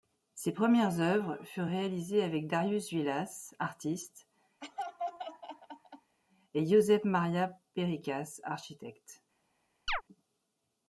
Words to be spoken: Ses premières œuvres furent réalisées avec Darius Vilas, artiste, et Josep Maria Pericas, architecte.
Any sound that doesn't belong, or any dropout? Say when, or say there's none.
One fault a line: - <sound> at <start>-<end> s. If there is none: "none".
- laugh at 4.6-6.2 s
- chirp at 9.9-10.0 s